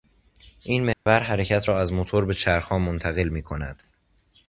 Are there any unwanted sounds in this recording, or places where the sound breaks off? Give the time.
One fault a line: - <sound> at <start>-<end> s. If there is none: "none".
- dropout at 0.9-1.1 s